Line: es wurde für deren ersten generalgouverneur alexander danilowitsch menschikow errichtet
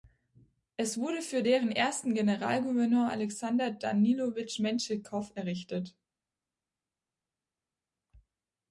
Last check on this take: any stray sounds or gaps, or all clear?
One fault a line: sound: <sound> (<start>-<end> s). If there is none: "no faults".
no faults